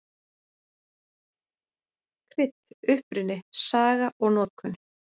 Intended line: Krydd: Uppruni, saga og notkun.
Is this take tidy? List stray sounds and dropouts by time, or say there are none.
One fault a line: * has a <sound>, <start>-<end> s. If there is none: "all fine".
all fine